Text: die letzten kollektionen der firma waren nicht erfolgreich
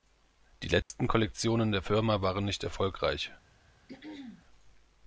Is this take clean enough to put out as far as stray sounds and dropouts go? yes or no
no